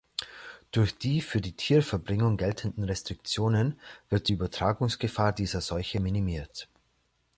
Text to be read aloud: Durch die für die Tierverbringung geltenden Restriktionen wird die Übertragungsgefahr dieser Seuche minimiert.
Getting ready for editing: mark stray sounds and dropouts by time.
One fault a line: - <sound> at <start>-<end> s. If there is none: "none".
none